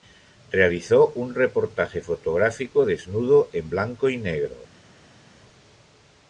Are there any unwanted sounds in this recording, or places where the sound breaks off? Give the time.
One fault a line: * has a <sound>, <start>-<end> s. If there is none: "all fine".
all fine